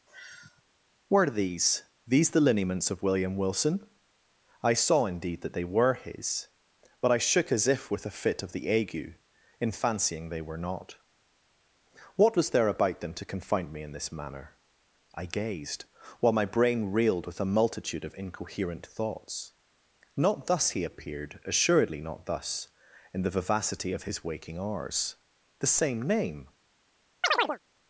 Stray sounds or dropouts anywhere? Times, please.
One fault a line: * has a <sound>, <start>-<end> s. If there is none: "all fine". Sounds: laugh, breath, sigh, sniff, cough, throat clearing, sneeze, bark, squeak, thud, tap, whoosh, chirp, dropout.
* has a sigh, 0.1-0.6 s
* has a chirp, 27.2-27.6 s